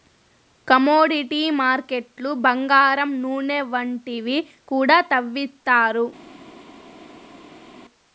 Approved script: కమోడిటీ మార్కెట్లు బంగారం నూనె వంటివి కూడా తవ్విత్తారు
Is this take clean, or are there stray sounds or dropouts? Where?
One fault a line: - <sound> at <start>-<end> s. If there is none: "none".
none